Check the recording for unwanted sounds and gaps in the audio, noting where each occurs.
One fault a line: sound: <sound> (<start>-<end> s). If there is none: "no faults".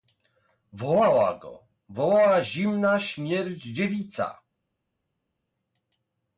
no faults